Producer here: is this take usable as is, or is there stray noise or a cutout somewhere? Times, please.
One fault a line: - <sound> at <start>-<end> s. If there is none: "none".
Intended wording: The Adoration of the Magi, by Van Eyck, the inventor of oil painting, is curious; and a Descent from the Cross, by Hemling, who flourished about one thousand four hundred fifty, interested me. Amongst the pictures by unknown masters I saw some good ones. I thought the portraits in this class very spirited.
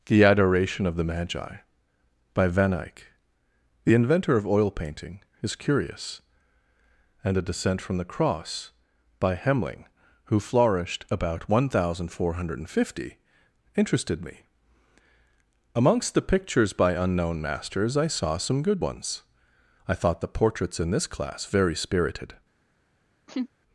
- laugh at 23.3-23.5 s